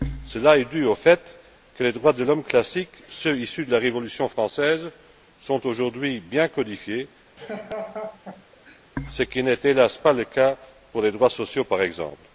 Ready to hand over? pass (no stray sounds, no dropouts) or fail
fail